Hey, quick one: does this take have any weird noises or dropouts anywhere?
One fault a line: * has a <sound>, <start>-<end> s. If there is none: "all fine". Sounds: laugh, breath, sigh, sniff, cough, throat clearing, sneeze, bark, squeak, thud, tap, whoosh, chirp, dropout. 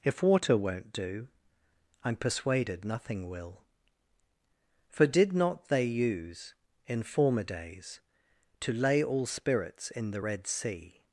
all fine